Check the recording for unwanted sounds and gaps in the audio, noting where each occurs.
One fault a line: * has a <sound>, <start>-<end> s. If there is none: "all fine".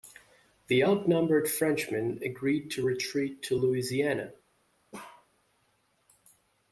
* has a bark, 4.9-5.3 s